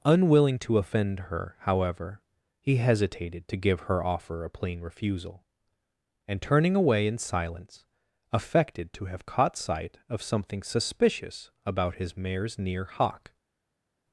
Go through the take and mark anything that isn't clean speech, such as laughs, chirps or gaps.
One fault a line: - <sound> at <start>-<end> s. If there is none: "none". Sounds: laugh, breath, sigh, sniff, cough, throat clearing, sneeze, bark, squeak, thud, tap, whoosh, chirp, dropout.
none